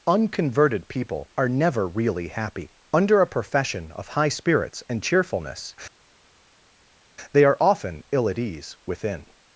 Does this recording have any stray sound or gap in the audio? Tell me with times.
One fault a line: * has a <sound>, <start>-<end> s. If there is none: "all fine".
all fine